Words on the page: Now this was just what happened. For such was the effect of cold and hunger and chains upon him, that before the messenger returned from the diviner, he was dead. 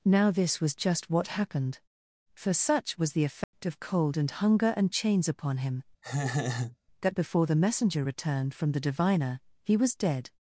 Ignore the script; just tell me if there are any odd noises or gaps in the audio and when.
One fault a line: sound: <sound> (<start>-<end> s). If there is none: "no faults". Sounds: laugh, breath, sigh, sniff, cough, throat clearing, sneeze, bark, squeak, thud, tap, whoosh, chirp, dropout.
sound: dropout (3.4-3.5 s)
sound: laugh (6.0-6.8 s)